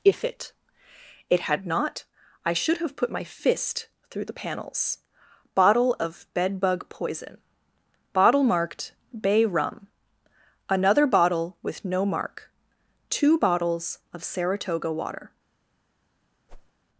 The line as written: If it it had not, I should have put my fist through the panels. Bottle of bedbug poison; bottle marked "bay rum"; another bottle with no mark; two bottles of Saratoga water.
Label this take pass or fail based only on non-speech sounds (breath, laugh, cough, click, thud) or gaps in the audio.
fail